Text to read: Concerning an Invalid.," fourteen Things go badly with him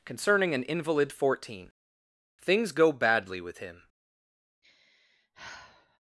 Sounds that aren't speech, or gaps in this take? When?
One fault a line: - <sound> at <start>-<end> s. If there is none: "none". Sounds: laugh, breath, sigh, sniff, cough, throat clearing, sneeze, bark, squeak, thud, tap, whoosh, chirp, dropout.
- sigh at 4.6-6.0 s